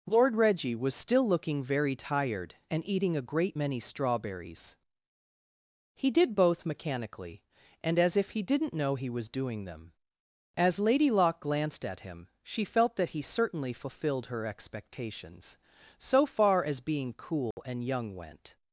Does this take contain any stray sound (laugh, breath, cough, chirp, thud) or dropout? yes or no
yes